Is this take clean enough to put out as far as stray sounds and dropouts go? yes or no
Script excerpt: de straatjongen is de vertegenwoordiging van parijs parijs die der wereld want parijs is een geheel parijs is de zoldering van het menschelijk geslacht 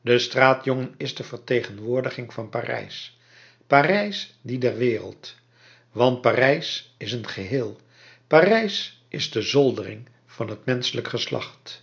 yes